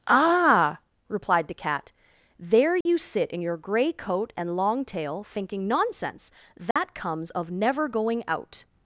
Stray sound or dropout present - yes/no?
yes